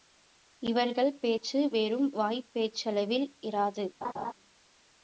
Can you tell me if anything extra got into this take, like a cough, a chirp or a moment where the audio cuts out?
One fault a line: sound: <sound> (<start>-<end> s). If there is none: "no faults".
sound: laugh (4.0-4.3 s)